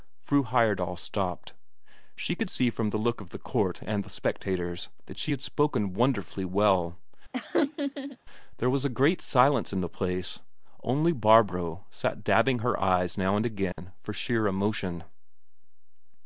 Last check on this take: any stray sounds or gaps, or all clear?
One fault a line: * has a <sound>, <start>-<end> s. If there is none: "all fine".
* has a laugh, 7.3-8.2 s
* has a dropout, 13.7-13.8 s